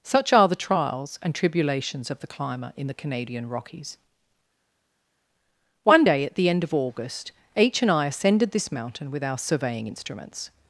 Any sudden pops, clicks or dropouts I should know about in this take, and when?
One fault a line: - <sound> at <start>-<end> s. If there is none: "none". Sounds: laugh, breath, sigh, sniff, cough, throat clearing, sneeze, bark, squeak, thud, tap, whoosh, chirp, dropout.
none